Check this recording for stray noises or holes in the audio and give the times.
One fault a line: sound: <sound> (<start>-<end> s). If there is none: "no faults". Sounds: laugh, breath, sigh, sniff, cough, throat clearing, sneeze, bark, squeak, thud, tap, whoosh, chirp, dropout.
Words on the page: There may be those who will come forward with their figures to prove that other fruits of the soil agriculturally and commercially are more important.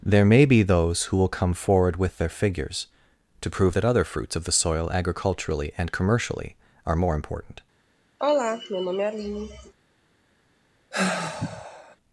sound: sigh (8.2-9.7 s)
sound: sigh (10.9-12.0 s)